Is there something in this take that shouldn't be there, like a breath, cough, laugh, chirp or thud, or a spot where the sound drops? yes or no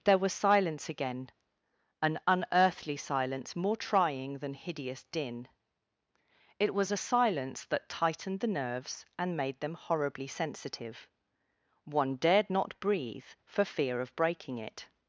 no